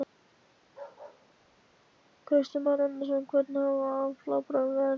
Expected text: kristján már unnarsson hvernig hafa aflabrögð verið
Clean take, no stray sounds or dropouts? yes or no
no